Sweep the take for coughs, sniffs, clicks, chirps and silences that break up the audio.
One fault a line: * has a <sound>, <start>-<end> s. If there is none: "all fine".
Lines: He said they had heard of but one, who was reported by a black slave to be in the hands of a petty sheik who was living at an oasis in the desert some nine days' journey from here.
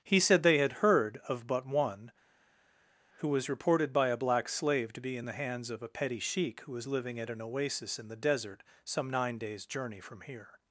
all fine